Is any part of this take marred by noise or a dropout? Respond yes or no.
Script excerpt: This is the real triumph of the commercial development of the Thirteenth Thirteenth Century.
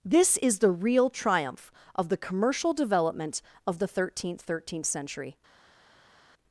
no